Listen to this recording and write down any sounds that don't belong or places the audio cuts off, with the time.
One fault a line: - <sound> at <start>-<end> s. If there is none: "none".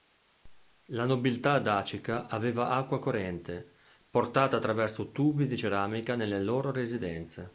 none